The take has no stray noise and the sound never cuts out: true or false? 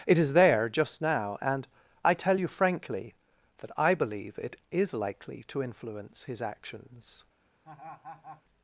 false